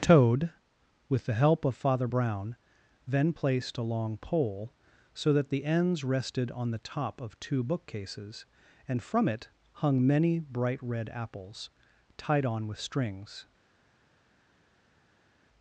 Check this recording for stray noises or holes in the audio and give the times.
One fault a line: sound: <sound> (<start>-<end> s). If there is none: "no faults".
no faults